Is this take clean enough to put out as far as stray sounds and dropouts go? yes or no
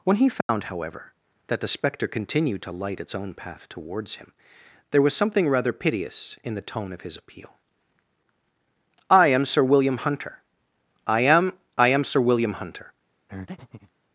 no